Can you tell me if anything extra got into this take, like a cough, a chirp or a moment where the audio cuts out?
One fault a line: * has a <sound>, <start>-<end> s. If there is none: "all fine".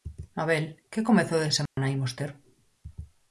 * has a dropout, 1.7-1.8 s